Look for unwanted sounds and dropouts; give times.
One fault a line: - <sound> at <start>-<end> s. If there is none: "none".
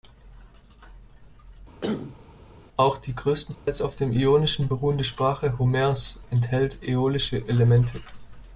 - cough at 1.8-2.2 s
- dropout at 3.5-3.7 s